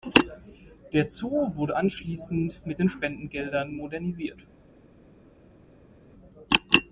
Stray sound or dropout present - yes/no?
no